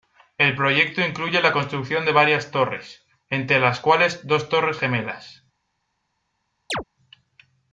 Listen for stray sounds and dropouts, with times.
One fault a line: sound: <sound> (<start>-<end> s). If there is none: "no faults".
sound: chirp (6.7-6.8 s)